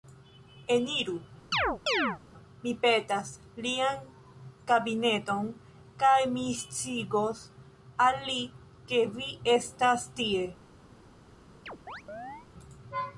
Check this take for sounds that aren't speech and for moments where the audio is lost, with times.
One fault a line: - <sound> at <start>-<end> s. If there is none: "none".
- chirp at 1.5-2.2 s
- chirp at 11.7-12.5 s